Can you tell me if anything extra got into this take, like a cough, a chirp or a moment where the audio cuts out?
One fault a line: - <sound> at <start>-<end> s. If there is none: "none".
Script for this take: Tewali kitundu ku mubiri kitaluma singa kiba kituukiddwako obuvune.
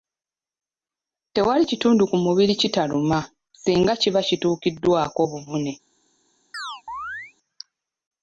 - chirp at 6.5-7.3 s